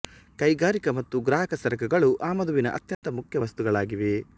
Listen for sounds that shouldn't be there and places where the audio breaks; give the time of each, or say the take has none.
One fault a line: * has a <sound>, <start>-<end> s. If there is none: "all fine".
* has a dropout, 2.9-3.0 s